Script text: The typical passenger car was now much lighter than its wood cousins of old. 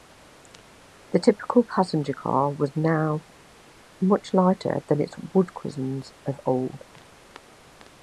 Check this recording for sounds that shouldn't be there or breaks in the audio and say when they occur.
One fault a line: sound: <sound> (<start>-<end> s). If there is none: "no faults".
no faults